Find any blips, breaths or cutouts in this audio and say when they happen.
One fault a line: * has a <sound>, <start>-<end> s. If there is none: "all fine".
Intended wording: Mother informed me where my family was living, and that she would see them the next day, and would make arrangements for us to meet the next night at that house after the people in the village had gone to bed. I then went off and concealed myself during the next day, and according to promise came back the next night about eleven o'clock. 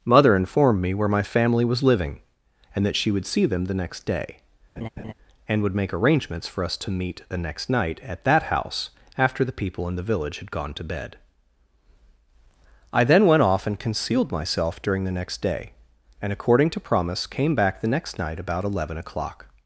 * has a laugh, 4.8-5.1 s